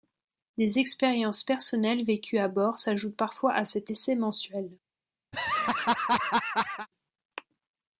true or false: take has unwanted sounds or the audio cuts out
true